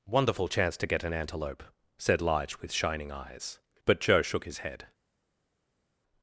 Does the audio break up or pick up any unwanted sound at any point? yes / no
no